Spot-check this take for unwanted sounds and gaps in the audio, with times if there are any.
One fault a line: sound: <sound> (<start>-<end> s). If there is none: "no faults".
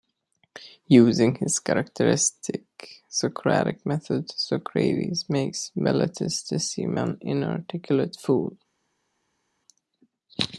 no faults